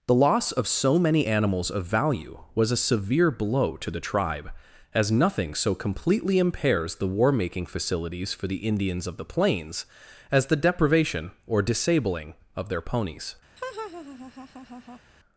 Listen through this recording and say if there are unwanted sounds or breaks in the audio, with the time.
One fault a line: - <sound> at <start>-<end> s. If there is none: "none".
- laugh at 13.6-15.0 s